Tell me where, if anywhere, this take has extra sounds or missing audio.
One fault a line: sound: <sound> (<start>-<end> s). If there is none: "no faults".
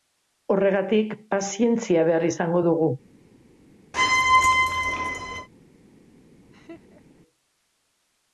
sound: squeak (3.9-5.5 s)
sound: laugh (6.5-7.2 s)